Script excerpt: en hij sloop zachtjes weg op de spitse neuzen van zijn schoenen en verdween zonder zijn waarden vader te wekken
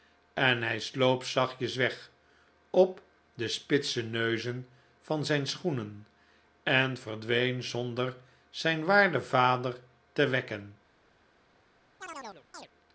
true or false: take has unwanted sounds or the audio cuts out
true